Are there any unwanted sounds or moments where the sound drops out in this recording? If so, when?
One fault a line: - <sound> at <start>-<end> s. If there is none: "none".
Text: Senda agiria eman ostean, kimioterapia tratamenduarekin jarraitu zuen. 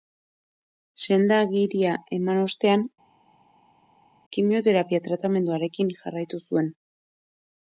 none